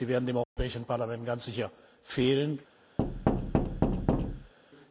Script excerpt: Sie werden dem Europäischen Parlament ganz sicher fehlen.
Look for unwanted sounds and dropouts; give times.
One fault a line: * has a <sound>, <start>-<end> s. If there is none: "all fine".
* has a dropout, 0.4-0.6 s
* has a thud, 3.0-4.5 s